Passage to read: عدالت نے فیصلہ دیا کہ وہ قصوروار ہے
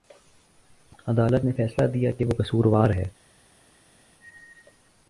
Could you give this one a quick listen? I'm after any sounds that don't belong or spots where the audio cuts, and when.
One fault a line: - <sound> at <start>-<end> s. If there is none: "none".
none